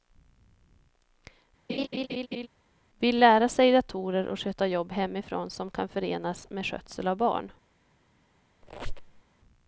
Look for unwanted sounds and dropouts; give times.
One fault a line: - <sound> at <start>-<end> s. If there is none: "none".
- laugh at 1.7-2.5 s
- squeak at 8.6-9.2 s